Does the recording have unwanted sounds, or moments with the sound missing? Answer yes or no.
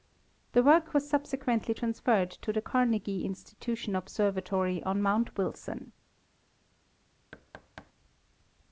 yes